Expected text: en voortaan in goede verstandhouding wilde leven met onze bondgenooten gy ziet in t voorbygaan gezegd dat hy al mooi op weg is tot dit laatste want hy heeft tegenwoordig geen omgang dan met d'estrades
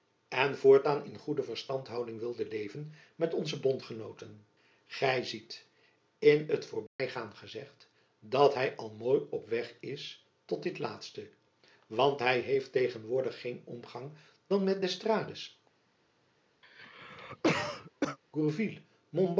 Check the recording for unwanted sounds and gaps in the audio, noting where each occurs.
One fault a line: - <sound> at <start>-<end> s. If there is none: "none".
- dropout at 6.9-7.0 s
- cough at 16.6-18.2 s